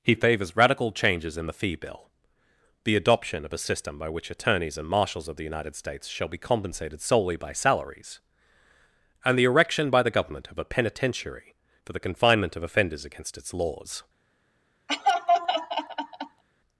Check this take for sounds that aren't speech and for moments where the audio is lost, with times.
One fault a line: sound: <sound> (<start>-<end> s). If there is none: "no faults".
sound: laugh (14.9-16.4 s)